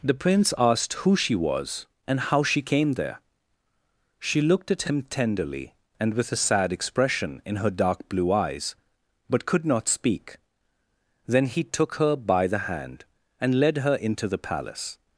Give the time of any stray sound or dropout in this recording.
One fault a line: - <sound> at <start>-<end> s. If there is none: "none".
none